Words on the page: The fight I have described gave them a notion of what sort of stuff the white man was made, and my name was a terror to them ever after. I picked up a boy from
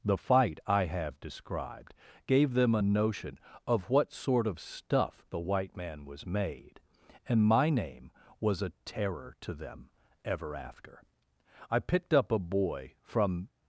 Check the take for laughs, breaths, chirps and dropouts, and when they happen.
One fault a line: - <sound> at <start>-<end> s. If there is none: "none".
none